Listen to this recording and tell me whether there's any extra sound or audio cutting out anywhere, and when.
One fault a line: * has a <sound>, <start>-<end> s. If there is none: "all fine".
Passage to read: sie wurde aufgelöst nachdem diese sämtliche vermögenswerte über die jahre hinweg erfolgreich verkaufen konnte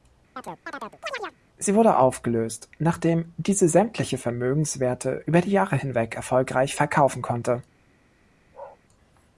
* has a chirp, 0.4-1.4 s
* has a bark, 8.5-8.8 s